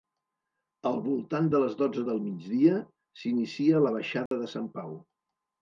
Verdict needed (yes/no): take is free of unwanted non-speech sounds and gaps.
no